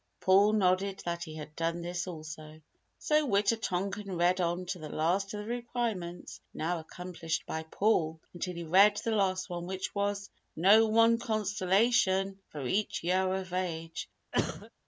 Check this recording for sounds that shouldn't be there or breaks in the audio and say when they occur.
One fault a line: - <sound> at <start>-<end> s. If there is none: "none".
- cough at 14.3-14.7 s